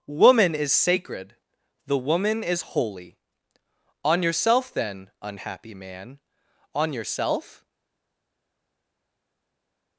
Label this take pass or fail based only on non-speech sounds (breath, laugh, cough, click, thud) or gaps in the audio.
pass